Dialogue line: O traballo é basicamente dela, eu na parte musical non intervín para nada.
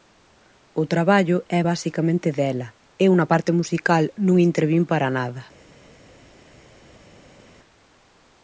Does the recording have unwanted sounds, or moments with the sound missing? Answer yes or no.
no